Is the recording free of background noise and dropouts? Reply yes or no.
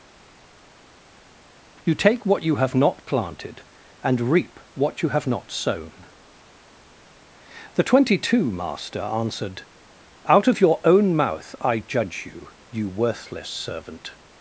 yes